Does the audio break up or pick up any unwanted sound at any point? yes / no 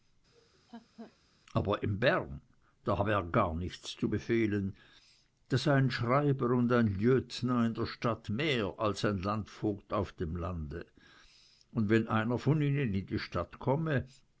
yes